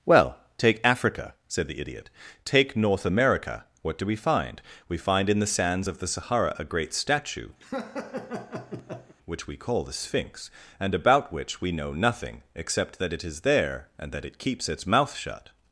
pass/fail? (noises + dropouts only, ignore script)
fail